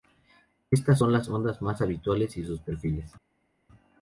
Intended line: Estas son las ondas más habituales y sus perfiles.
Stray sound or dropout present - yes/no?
no